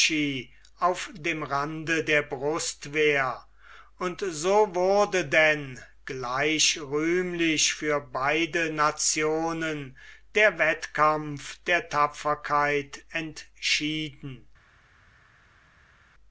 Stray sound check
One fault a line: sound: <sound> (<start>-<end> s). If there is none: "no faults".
no faults